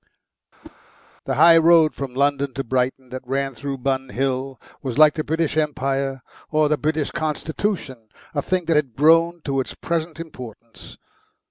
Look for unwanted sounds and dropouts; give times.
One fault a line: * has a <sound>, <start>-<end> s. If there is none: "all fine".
* has a whoosh, 0.6-0.8 s